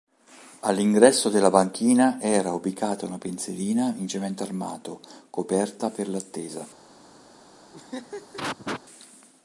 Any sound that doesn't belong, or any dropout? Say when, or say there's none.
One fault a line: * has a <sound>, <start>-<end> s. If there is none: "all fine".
* has a laugh, 7.7-8.8 s